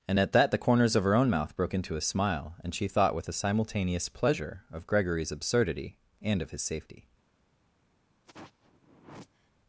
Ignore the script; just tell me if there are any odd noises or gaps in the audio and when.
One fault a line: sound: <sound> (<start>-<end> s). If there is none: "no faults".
sound: sigh (8.2-9.5 s)